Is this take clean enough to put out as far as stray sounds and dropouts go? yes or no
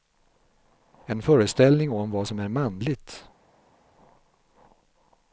yes